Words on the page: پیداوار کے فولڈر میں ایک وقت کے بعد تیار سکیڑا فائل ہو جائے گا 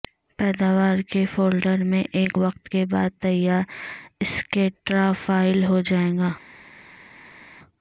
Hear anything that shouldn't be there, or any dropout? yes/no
no